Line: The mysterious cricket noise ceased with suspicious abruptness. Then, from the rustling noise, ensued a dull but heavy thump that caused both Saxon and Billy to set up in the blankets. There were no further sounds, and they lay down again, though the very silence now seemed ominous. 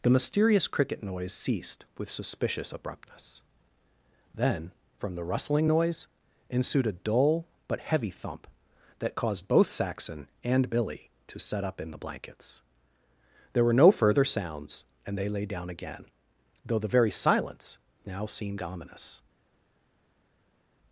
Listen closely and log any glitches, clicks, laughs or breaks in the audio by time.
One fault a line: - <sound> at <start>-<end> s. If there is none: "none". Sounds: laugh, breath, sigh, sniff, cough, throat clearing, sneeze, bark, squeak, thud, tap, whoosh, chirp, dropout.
none